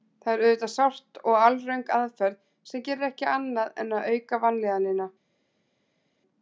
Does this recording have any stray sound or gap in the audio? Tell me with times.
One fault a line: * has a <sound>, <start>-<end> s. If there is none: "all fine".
all fine